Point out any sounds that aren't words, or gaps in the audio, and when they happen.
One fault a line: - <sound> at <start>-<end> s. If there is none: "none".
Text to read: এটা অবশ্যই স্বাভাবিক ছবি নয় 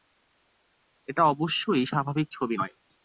none